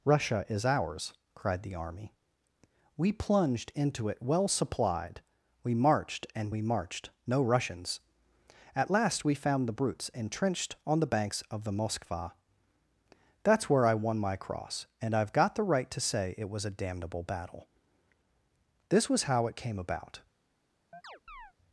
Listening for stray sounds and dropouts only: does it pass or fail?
fail